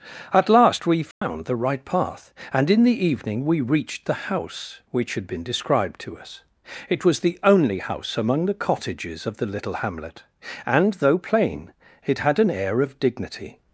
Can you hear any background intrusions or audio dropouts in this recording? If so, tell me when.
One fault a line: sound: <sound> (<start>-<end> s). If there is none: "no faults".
sound: dropout (1.1-1.2 s)